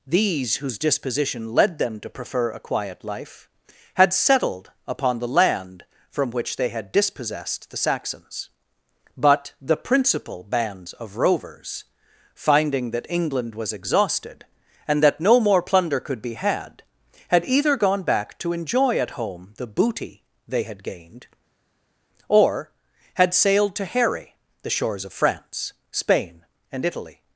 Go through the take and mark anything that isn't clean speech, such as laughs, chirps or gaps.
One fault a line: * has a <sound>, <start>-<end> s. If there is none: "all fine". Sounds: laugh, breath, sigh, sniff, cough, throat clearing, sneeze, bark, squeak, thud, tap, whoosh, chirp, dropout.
all fine